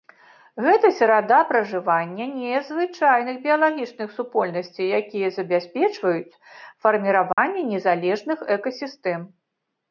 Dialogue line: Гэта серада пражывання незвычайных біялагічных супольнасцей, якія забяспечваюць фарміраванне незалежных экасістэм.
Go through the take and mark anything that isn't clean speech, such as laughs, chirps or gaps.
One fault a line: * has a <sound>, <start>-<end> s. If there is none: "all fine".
* has a dropout, 7.3-7.4 s